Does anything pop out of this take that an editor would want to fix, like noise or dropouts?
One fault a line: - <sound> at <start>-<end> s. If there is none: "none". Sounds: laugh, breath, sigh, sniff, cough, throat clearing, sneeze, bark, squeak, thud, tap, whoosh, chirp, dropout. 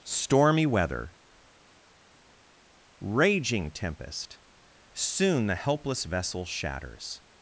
none